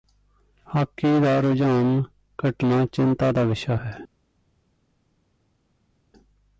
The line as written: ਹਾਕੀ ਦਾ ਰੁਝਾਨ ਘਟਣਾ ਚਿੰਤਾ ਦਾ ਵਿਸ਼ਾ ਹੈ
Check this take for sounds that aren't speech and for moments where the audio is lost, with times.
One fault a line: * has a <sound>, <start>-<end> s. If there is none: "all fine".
all fine